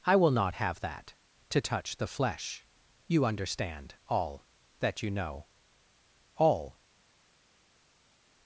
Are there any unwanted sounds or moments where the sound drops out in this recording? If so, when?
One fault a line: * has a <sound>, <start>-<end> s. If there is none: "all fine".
all fine